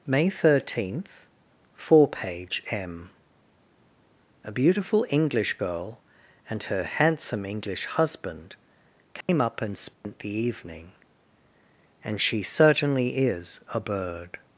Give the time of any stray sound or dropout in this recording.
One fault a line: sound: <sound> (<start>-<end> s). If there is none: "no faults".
sound: dropout (9.2-9.3 s)
sound: dropout (9.9-10.0 s)